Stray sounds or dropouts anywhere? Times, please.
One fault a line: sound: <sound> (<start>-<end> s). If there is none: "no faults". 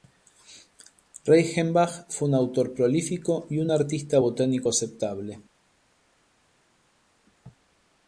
no faults